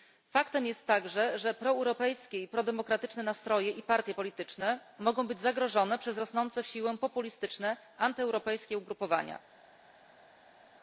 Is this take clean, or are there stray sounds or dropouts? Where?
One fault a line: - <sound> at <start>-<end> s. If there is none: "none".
none